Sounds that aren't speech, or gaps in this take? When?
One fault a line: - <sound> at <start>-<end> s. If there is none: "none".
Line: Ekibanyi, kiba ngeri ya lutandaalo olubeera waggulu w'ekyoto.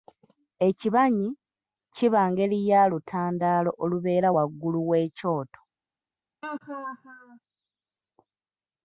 - laugh at 6.4-7.4 s